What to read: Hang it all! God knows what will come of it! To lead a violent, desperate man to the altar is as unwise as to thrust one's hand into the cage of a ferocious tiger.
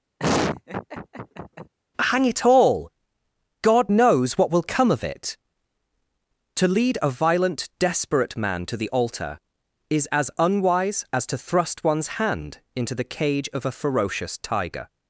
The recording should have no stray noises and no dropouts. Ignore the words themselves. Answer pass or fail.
fail